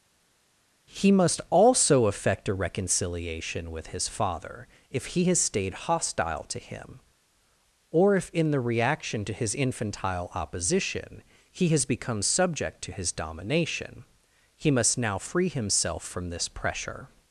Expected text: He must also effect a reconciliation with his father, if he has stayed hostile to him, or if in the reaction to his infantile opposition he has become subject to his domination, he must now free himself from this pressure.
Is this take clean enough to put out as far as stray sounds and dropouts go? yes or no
yes